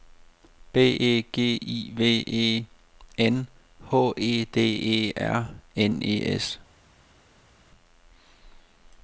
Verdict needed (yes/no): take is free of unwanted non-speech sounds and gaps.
yes